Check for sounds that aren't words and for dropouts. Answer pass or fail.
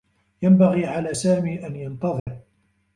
fail